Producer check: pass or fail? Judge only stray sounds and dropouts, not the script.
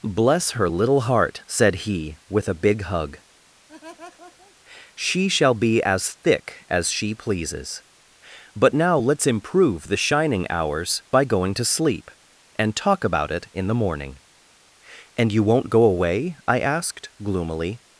fail